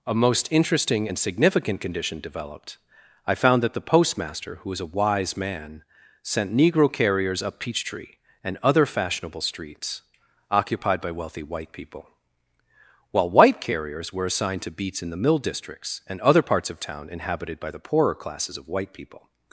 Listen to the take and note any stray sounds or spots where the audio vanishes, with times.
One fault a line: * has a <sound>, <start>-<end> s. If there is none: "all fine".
all fine